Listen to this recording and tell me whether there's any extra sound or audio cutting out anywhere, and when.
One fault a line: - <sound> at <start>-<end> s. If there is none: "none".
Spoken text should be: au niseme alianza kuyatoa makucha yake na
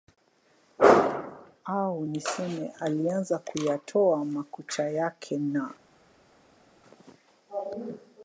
none